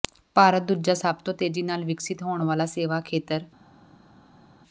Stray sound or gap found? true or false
false